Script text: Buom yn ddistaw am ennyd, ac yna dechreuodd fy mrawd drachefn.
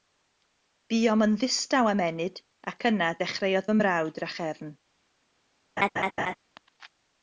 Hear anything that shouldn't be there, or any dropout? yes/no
yes